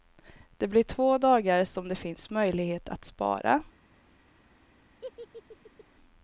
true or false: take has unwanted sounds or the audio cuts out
true